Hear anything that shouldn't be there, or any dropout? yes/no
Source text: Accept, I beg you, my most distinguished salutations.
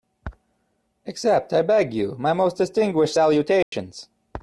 yes